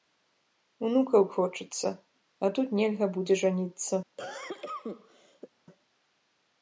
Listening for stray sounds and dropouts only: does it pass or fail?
fail